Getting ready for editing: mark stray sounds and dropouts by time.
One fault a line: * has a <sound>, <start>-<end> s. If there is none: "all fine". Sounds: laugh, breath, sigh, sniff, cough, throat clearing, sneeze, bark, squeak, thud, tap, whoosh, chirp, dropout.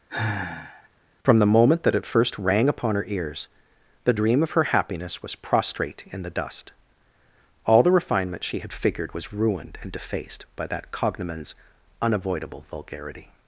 * has a sigh, 0.1-0.9 s